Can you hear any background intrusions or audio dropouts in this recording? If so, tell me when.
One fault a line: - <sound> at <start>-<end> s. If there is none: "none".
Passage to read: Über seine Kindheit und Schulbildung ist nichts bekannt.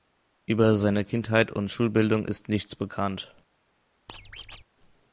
- squeak at 4.1-4.6 s